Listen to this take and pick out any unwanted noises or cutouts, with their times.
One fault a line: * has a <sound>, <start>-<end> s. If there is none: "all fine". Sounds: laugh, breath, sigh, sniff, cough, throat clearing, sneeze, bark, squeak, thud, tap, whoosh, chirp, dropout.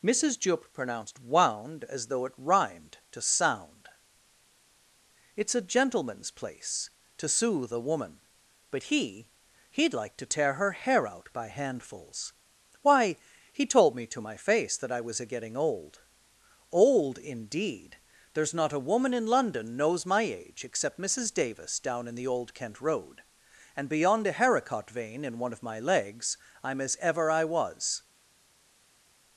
all fine